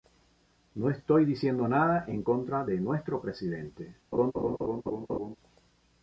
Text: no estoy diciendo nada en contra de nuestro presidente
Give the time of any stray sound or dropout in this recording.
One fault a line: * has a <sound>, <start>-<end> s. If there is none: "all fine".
* has a laugh, 4.1-5.4 s